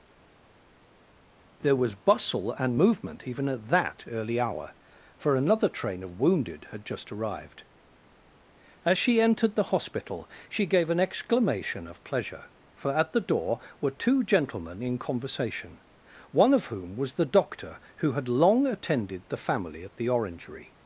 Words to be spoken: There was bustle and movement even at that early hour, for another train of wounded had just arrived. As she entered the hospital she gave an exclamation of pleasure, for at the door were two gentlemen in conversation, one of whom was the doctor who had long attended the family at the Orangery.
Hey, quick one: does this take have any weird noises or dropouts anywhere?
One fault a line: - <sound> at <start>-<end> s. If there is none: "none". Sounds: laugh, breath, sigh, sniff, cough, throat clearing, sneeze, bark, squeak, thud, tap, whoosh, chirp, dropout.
none